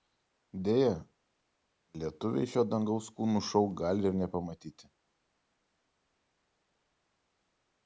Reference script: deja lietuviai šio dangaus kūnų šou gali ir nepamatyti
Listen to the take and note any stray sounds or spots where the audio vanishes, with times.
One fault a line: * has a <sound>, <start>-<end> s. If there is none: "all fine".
all fine